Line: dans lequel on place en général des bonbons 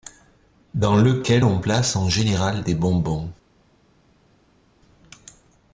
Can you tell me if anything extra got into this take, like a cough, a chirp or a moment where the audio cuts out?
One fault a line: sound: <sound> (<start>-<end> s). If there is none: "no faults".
no faults